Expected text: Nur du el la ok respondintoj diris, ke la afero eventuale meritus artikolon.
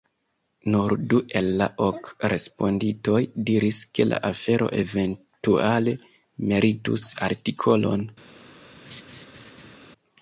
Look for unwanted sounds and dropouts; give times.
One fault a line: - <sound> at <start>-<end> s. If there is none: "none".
- laugh at 8.8-9.8 s